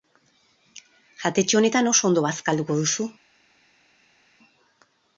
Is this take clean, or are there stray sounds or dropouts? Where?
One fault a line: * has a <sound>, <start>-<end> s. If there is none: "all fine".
all fine